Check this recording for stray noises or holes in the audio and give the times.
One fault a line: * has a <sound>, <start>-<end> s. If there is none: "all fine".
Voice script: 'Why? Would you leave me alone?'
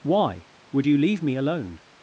all fine